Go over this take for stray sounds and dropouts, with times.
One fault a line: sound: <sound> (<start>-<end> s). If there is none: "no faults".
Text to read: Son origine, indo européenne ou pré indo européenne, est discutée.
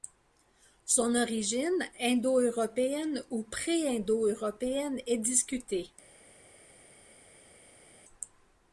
no faults